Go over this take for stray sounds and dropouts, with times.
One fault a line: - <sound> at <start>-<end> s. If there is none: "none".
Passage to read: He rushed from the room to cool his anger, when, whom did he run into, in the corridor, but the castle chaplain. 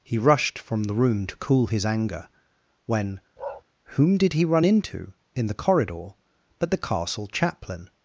- bark at 3.4-3.6 s